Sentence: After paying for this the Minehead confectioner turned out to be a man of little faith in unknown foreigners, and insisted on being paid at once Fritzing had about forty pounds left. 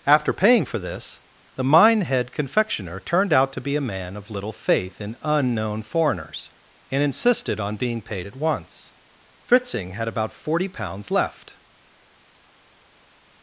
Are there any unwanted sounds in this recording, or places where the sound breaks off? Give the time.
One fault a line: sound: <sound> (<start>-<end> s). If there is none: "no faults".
no faults